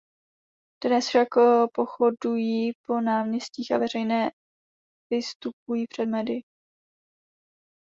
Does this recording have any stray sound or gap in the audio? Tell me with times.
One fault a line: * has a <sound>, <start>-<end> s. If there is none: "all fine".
all fine